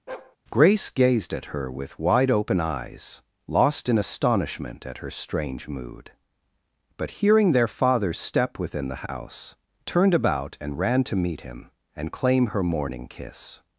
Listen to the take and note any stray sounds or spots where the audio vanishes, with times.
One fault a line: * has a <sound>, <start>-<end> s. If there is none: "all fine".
* has a bark, 0.1-0.4 s